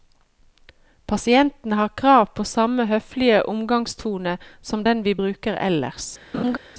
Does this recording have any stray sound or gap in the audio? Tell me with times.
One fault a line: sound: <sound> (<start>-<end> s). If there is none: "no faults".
sound: laugh (6.3-6.6 s)